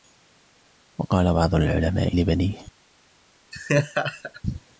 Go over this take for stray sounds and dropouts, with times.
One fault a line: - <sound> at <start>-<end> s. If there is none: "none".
- laugh at 3.5-4.4 s